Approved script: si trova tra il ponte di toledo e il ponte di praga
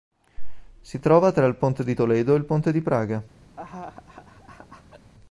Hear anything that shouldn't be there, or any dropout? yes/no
yes